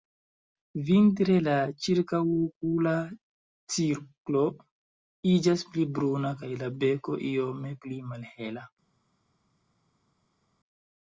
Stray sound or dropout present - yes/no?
no